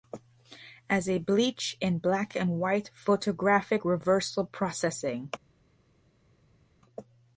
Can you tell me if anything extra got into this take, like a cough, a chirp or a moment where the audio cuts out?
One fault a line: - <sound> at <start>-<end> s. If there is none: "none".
none